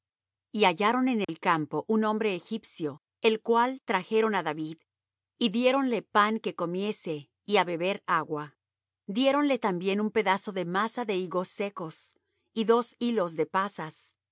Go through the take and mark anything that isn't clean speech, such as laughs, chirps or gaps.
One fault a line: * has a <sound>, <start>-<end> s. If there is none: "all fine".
* has a dropout, 1.2-1.3 s